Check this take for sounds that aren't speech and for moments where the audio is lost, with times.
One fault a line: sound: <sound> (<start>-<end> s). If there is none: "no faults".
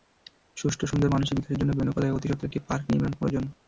no faults